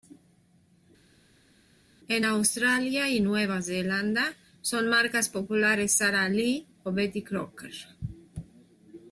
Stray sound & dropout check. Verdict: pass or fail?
pass